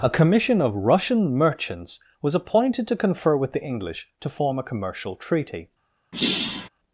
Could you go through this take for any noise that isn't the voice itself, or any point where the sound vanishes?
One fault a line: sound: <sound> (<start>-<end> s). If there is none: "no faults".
sound: sigh (6.1-6.7 s)